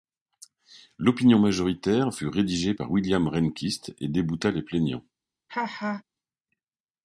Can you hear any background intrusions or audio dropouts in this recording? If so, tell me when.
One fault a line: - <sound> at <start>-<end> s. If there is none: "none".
- laugh at 5.5-6.0 s